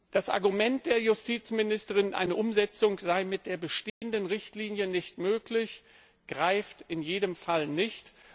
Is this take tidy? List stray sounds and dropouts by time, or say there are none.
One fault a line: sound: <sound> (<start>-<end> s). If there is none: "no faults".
sound: dropout (3.9-4.0 s)